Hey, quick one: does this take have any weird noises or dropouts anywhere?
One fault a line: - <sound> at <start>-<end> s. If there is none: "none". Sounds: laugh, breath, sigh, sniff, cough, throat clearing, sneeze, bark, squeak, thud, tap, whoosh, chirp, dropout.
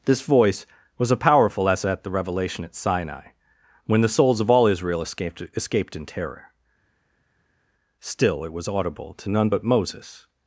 none